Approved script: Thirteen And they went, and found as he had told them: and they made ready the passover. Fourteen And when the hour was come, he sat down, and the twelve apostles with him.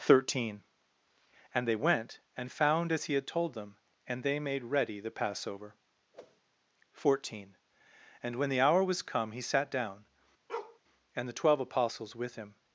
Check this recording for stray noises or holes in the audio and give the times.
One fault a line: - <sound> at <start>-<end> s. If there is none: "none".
- whoosh at 6.1-6.4 s
- bark at 10.5-10.8 s